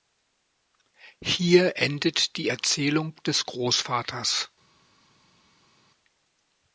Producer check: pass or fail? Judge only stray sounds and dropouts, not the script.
pass